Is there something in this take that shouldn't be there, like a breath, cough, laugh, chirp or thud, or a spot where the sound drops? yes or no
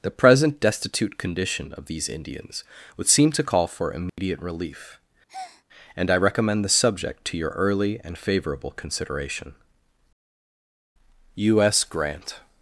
yes